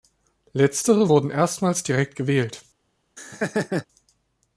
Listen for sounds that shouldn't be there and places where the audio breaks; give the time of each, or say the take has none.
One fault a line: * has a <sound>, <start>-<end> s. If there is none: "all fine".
* has a laugh, 3.2-3.9 s